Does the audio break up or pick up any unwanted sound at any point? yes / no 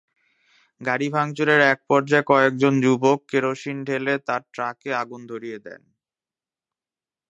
no